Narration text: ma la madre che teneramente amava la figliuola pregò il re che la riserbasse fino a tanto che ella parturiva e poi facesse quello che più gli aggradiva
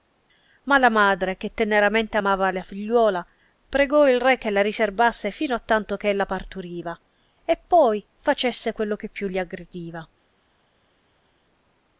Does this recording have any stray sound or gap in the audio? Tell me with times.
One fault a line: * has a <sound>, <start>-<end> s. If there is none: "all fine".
all fine